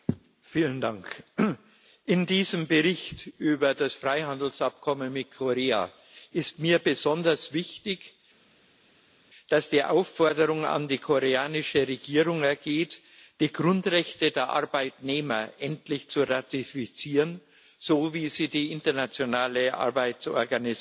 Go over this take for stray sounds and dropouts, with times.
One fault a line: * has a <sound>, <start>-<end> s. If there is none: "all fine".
all fine